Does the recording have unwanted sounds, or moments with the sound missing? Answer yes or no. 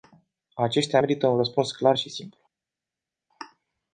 no